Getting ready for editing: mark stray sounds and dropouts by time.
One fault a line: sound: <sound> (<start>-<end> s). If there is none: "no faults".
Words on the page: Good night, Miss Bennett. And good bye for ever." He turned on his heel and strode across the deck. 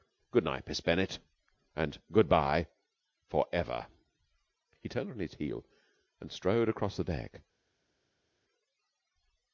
no faults